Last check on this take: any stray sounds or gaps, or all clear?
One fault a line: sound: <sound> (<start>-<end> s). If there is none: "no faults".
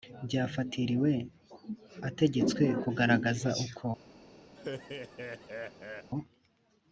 sound: laugh (4.6-6.1 s)